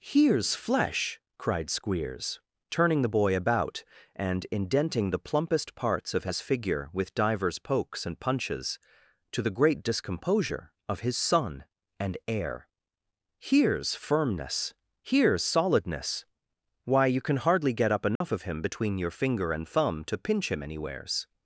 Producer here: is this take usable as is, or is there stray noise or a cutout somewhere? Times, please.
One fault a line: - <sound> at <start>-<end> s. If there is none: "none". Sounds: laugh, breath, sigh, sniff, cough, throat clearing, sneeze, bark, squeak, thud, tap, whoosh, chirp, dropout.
- dropout at 18.2-18.2 s